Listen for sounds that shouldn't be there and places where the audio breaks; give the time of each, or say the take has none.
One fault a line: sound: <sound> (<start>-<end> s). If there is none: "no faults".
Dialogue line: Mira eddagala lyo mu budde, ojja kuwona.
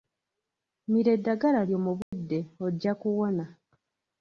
sound: dropout (2.0-2.1 s)